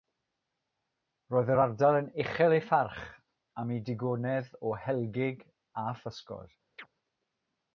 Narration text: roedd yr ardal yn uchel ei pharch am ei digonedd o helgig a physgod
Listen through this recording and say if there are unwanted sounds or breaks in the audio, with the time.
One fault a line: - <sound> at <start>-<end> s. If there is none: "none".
- chirp at 6.8-6.9 s